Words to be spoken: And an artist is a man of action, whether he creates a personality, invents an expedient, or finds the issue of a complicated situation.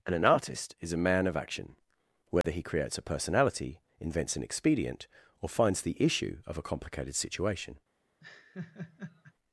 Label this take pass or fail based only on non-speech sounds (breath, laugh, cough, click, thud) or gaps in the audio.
fail